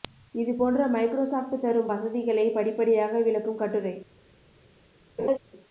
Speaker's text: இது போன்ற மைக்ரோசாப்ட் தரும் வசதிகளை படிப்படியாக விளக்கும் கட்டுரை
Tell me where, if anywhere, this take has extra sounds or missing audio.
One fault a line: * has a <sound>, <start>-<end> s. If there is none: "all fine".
* has a laugh, 5.2-5.4 s